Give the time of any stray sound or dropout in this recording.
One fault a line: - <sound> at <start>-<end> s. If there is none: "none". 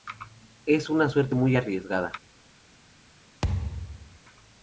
- thud at 3.4-4.2 s